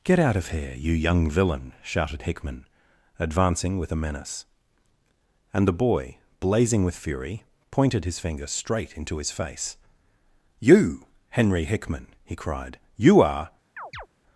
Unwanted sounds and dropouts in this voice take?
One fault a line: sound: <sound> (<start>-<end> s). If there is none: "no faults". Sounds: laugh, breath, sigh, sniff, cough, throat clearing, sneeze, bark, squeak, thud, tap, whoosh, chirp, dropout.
sound: chirp (13.8-14.1 s)